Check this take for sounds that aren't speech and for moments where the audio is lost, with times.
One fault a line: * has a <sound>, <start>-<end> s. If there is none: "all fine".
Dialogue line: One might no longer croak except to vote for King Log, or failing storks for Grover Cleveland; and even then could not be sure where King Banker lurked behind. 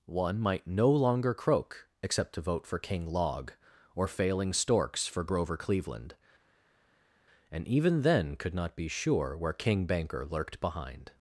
all fine